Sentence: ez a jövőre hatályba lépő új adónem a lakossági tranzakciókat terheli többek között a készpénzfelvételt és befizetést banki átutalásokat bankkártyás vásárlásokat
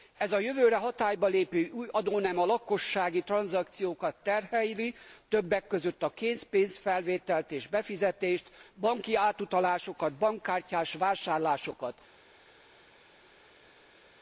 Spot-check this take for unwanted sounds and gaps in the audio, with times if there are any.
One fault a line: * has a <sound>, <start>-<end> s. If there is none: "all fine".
all fine